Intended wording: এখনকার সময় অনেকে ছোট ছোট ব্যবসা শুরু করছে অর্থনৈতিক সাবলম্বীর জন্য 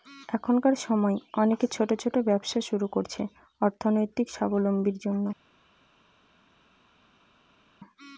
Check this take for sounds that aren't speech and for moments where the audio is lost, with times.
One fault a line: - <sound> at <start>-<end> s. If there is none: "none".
none